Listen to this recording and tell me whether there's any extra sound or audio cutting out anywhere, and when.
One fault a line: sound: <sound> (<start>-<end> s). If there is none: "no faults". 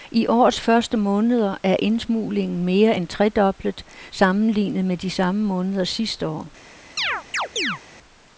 sound: chirp (7.0-7.8 s)